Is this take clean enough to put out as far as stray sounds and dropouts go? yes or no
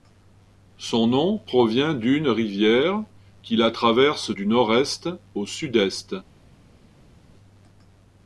yes